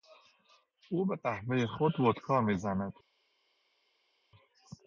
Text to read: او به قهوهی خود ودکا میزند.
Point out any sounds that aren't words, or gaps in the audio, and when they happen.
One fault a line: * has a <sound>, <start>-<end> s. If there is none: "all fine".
all fine